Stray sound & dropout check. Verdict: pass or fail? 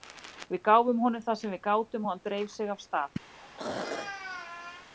fail